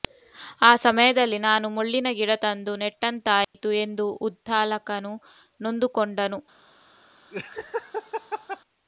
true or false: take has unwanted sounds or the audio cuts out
true